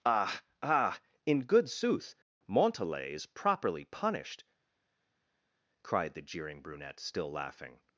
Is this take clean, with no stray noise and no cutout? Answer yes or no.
yes